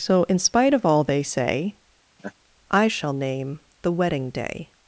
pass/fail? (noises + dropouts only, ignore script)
fail